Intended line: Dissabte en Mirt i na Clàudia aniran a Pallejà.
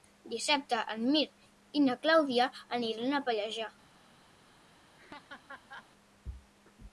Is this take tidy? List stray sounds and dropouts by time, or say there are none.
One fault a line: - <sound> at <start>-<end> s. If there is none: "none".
- laugh at 5.0-5.9 s